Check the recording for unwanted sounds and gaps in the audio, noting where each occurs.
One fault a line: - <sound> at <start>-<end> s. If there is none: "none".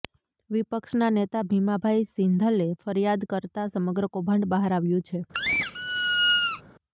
- squeak at 5.3-6.6 s